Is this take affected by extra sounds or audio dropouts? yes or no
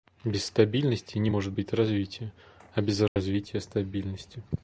yes